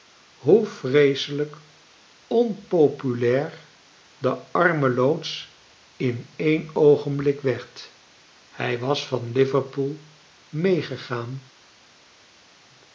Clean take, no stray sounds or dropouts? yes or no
yes